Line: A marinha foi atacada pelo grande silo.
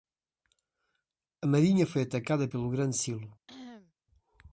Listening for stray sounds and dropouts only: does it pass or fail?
fail